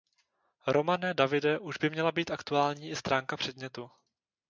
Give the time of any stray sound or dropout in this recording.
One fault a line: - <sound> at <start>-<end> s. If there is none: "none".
none